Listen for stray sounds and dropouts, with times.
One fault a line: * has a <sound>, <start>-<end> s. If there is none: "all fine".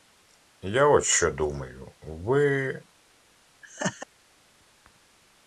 * has a laugh, 3.6-4.1 s